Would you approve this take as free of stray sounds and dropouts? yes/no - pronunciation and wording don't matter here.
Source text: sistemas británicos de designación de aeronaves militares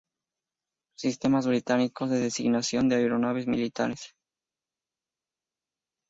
yes